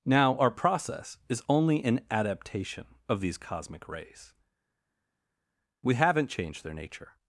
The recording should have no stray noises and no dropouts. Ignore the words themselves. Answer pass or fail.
pass